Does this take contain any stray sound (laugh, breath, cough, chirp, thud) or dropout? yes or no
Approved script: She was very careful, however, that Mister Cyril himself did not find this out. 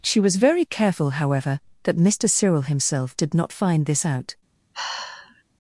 yes